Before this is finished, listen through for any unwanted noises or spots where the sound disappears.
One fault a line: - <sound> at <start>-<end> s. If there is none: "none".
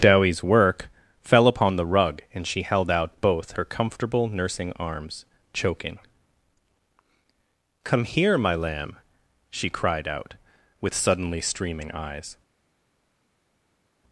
none